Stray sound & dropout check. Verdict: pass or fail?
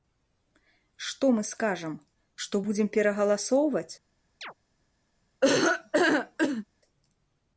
fail